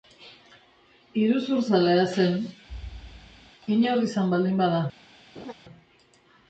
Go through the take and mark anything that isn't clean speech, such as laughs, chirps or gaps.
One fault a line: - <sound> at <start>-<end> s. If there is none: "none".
- thud at 2.7-3.5 s
- laugh at 5.3-5.5 s